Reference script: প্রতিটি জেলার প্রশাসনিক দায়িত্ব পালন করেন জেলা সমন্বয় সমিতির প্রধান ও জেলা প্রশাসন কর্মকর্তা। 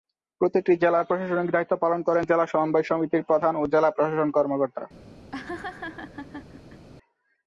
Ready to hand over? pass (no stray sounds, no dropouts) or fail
fail